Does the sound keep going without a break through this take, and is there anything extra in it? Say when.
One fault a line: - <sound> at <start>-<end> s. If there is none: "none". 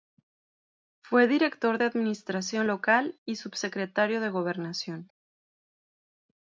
none